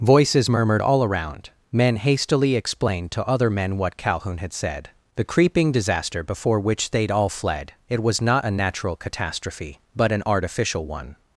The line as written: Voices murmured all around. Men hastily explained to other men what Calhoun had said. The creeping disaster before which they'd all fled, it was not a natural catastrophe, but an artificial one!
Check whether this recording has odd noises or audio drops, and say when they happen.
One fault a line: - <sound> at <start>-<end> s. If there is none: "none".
none